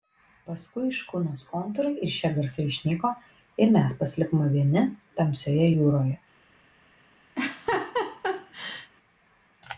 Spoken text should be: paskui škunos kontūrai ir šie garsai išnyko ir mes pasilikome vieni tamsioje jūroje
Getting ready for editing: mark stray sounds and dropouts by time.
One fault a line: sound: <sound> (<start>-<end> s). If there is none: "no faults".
sound: laugh (7.4-8.9 s)